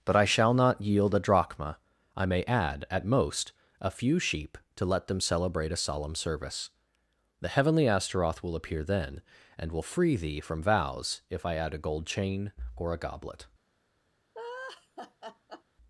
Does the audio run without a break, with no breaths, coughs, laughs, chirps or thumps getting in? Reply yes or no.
no